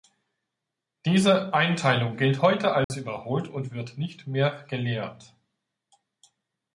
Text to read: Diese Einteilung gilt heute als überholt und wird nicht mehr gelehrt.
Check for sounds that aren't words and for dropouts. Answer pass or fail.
fail